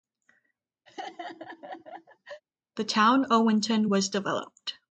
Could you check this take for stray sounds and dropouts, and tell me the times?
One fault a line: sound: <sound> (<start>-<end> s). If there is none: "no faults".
sound: laugh (0.9-2.4 s)